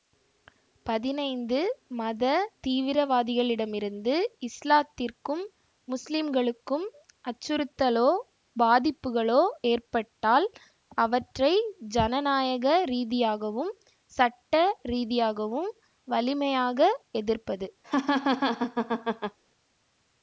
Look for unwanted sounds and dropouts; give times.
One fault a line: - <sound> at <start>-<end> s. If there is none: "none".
- laugh at 17.8-19.4 s